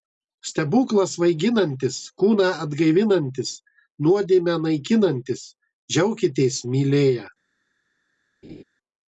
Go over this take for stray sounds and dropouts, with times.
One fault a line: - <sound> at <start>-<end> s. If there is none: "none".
- laugh at 8.4-8.6 s